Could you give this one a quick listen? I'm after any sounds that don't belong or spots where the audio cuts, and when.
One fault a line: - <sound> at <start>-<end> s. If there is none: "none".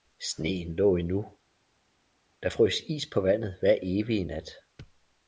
none